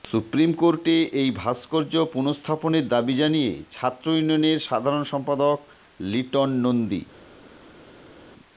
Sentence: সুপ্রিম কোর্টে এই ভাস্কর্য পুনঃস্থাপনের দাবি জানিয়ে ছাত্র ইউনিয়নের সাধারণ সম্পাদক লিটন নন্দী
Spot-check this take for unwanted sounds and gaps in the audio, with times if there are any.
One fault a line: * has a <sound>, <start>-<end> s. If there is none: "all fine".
all fine